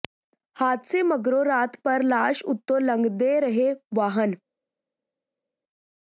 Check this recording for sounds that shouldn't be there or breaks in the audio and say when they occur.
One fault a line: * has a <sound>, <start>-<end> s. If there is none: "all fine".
all fine